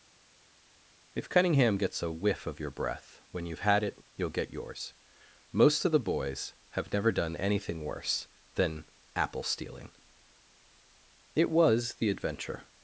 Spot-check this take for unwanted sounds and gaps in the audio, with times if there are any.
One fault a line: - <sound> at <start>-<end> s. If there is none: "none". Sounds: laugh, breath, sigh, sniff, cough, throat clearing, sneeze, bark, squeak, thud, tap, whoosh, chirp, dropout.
none